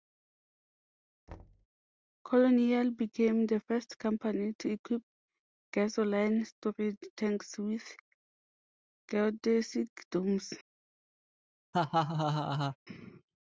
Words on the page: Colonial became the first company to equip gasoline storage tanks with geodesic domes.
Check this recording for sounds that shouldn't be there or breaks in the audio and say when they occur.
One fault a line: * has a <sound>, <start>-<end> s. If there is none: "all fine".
* has a thud, 1.3-1.7 s
* has a laugh, 11.7-12.8 s